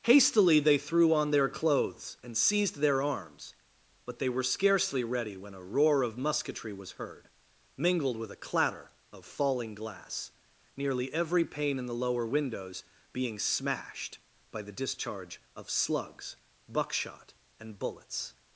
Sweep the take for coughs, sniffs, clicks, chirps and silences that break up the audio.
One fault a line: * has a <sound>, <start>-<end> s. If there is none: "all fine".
all fine